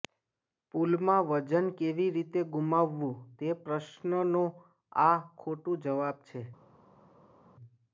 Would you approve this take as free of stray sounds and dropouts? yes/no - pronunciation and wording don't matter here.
yes